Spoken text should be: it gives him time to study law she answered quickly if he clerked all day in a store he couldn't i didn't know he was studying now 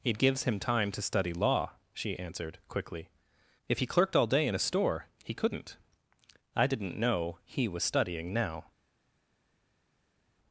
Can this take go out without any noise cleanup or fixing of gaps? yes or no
yes